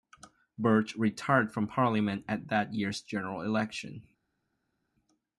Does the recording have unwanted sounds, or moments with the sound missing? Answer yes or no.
no